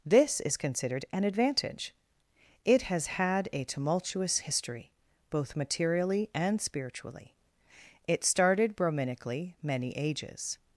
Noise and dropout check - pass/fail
pass